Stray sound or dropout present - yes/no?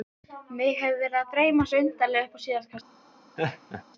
yes